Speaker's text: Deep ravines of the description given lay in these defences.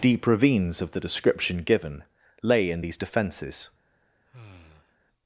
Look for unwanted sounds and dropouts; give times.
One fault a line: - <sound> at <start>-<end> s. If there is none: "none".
- sigh at 4.3-5.0 s